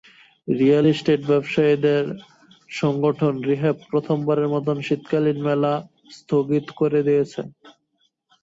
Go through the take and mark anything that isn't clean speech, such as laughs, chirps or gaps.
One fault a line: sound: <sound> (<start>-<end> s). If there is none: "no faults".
no faults